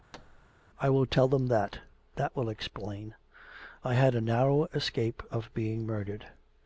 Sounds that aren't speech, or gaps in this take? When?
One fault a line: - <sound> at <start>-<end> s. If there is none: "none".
- thud at 0.1-0.5 s